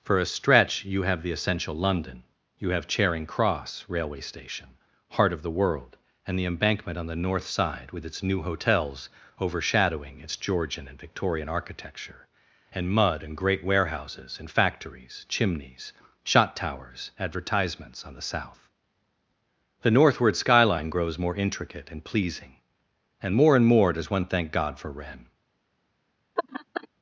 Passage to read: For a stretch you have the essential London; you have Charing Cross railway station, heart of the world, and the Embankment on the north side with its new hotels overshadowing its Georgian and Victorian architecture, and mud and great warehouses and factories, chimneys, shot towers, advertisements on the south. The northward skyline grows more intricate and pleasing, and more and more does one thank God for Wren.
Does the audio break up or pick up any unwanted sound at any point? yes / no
yes